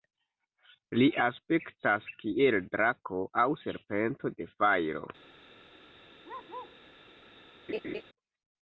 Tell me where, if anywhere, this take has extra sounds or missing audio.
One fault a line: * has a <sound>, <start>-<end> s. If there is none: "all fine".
* has a bark, 6.2-6.8 s
* has a laugh, 7.7-8.0 s